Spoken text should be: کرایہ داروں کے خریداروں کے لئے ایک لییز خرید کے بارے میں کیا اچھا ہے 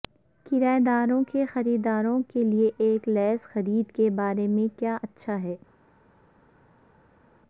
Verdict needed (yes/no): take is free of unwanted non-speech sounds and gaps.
yes